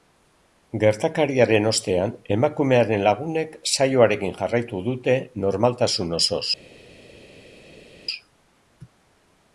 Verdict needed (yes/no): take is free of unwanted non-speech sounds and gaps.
yes